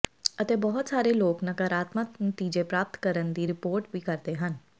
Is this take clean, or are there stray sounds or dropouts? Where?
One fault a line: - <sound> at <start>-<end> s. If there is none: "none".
none